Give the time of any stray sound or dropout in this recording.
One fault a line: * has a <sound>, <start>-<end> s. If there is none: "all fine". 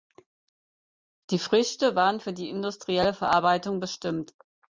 all fine